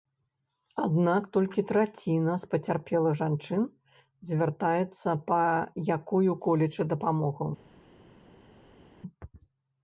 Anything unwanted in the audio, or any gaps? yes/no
no